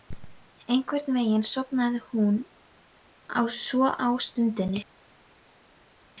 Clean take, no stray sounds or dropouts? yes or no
yes